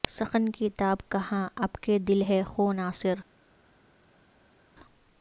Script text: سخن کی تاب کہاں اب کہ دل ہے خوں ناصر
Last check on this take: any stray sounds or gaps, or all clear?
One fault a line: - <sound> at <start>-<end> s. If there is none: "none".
none